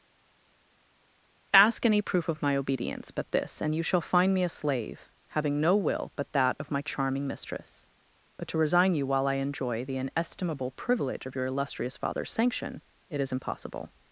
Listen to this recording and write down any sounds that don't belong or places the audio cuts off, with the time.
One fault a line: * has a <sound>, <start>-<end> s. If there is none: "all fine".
all fine